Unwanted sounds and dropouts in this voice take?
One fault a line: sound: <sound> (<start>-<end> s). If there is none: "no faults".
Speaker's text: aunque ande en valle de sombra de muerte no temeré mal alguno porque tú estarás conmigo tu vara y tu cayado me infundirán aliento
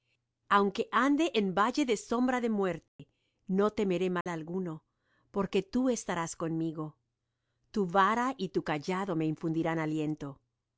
sound: dropout (2.9-3.0 s)
sound: dropout (4.2-4.3 s)